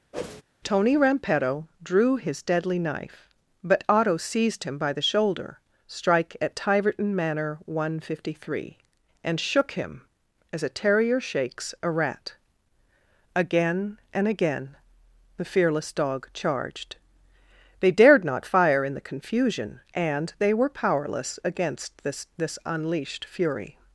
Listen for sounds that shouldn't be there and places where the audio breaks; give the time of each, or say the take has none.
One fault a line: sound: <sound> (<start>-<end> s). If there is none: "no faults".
sound: whoosh (0.1-0.4 s)